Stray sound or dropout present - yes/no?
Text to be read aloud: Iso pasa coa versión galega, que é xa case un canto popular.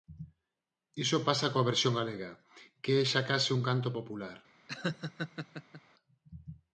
yes